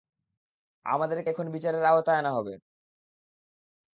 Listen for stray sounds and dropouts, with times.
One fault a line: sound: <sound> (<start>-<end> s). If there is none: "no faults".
no faults